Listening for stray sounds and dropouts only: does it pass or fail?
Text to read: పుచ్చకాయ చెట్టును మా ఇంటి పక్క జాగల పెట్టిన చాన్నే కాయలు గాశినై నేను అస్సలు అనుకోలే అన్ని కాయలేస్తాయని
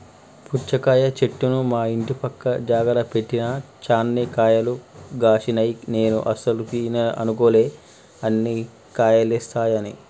pass